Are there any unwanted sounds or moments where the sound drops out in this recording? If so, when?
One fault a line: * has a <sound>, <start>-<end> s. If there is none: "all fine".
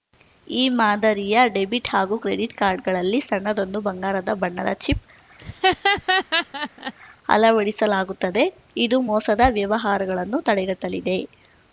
* has a laugh, 5.4-6.9 s